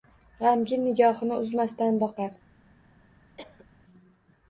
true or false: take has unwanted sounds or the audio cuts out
true